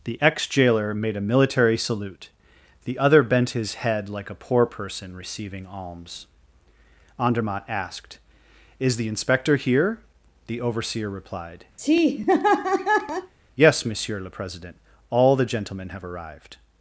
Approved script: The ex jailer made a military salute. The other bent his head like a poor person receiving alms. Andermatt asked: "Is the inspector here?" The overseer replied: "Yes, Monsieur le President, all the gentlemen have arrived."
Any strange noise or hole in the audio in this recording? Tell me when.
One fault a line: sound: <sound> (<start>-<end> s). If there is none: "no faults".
sound: laugh (11.8-13.3 s)